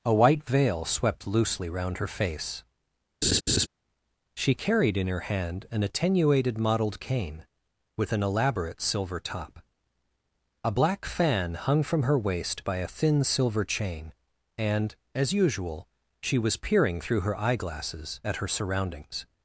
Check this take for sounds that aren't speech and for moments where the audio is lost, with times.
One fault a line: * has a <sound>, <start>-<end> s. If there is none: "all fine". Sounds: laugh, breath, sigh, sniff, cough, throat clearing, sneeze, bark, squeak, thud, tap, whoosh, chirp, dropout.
* has a laugh, 3.2-3.7 s